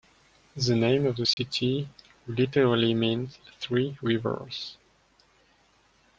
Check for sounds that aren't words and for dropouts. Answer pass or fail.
fail